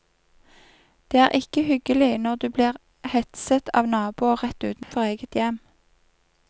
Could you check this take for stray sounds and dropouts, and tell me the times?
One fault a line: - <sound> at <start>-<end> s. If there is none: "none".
- dropout at 4.8-4.9 s